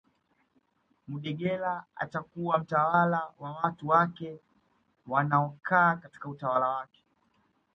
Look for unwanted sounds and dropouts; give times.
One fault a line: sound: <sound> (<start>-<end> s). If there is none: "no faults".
no faults